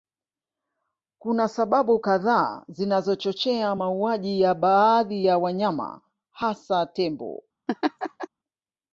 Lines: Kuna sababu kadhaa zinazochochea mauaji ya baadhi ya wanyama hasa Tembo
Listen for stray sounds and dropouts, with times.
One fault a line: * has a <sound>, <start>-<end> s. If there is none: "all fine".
* has a laugh, 7.7-8.3 s